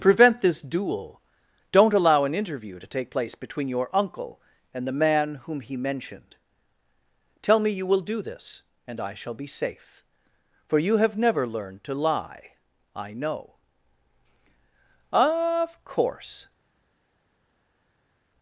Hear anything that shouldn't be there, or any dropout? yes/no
no